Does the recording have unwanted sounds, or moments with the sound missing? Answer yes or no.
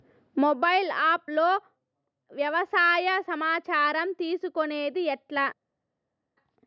no